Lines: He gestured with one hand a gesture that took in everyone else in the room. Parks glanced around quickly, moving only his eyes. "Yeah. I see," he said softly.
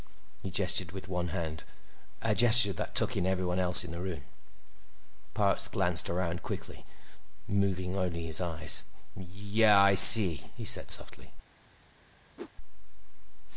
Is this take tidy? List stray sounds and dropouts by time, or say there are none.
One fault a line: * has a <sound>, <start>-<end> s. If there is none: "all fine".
* has a whoosh, 12.4-12.5 s